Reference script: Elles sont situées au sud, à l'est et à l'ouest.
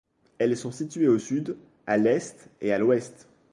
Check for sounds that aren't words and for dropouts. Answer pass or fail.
pass